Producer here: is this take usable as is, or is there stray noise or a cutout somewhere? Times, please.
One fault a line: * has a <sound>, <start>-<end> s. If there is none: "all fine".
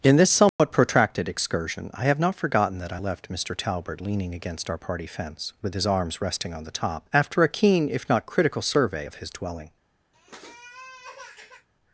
* has a dropout, 0.5-0.6 s
* has a sniff, 10.1-11.7 s